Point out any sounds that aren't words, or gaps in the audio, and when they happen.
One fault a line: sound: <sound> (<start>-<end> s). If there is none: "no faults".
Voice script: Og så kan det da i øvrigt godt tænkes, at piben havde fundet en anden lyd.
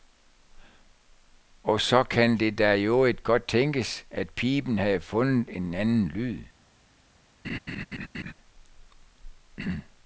sound: laugh (7.4-8.3 s)